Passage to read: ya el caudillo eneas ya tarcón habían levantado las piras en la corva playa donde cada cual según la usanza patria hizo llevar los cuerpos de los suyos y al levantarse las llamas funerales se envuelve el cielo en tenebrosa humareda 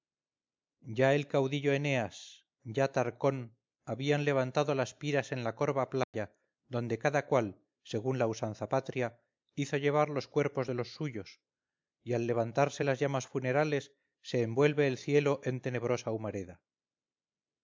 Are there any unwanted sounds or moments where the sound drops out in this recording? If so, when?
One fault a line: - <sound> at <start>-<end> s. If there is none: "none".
- dropout at 6.0-6.1 s